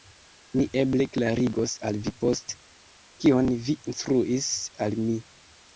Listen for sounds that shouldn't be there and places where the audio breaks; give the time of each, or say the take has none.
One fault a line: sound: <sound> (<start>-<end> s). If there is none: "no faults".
no faults